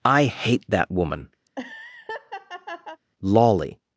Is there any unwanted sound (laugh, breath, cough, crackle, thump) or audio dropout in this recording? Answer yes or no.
yes